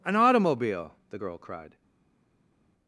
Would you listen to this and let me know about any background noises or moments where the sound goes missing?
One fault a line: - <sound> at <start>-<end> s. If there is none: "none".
none